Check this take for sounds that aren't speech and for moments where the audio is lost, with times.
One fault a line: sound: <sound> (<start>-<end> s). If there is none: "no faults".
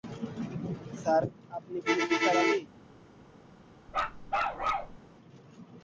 sound: bark (3.9-5.0 s)